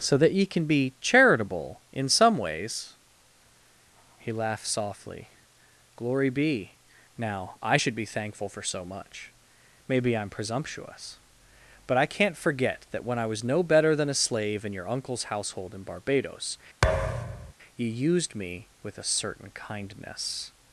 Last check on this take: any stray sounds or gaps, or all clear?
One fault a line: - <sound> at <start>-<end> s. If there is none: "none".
- thud at 16.8-17.5 s